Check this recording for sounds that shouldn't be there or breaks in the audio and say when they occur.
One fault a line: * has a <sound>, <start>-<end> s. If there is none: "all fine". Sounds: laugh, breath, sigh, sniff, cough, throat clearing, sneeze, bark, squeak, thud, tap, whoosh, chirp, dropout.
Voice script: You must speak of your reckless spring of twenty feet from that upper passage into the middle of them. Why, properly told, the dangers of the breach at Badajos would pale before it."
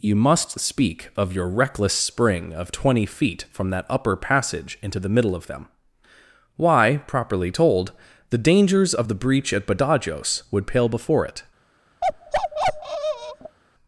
* has a bark, 12.0-13.6 s